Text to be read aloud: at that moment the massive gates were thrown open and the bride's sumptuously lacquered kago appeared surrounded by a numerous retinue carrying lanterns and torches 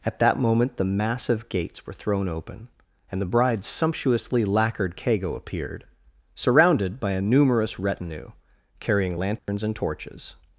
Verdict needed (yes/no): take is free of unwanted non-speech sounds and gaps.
no